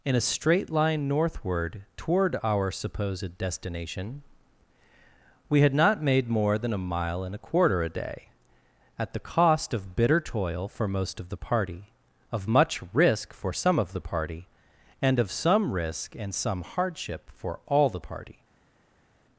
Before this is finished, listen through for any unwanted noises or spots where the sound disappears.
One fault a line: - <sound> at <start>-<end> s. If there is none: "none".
none